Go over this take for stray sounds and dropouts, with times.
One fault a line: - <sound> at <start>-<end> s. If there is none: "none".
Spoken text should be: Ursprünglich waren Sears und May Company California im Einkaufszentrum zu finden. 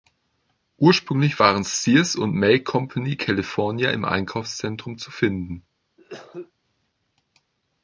- cough at 6.0-6.5 s